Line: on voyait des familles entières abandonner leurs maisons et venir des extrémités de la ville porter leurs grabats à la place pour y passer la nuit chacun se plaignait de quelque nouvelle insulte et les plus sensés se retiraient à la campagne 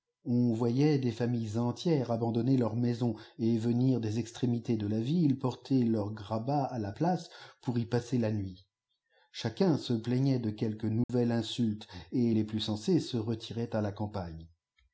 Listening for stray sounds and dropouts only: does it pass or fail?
fail